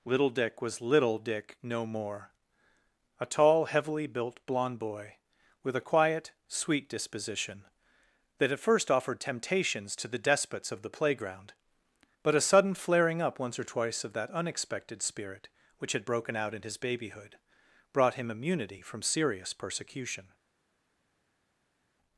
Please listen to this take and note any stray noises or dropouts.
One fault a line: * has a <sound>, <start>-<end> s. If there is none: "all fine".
all fine